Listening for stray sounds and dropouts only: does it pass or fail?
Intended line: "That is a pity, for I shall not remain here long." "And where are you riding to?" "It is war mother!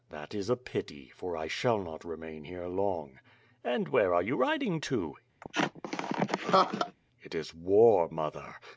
fail